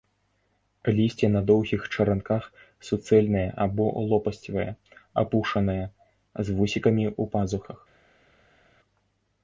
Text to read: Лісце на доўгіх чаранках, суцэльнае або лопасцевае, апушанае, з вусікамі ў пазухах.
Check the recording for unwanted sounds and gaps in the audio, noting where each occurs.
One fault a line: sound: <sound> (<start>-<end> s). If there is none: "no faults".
no faults